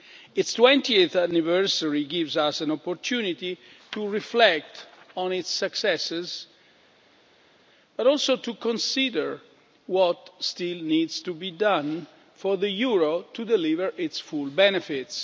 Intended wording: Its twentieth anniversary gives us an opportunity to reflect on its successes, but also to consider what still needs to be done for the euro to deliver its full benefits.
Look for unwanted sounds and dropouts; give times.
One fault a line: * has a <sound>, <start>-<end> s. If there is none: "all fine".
all fine